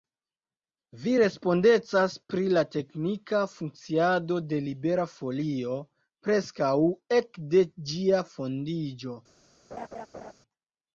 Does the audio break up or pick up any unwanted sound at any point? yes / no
yes